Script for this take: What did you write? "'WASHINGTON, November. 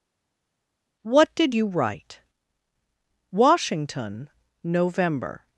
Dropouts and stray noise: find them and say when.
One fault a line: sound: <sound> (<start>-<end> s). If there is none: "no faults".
no faults